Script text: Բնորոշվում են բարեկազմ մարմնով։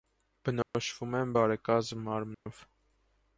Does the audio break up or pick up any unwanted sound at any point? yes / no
yes